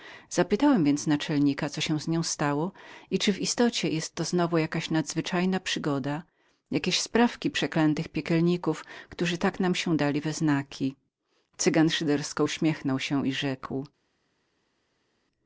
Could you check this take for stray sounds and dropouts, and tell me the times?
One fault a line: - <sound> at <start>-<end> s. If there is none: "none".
none